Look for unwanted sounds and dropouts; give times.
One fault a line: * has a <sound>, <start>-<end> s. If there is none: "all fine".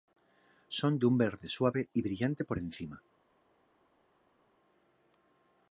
all fine